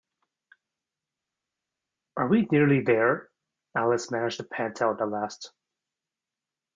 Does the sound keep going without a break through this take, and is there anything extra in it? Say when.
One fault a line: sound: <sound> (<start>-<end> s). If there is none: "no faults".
no faults